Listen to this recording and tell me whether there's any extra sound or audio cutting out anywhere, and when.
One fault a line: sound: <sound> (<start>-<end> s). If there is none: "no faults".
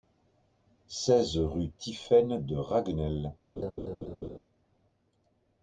sound: laugh (3.6-4.4 s)